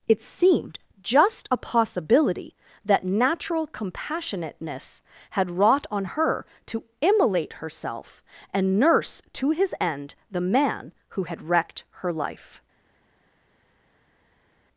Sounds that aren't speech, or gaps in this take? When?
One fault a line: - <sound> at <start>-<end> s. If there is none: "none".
none